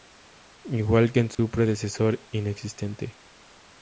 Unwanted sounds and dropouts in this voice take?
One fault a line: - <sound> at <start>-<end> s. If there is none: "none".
- dropout at 1.3-1.4 s